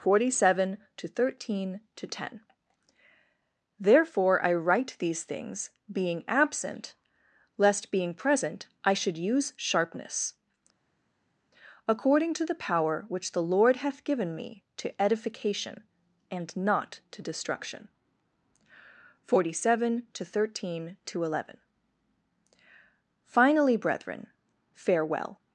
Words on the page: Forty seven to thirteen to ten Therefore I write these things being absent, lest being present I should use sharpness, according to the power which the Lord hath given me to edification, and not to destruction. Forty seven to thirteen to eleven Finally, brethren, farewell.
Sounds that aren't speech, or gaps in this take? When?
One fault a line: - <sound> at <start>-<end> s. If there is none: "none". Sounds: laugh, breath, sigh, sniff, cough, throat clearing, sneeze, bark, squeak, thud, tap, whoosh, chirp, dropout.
none